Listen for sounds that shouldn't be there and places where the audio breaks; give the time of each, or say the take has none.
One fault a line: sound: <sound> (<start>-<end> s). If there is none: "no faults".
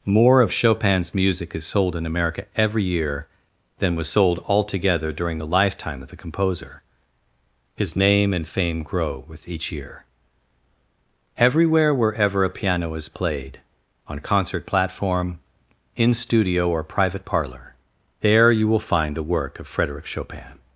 no faults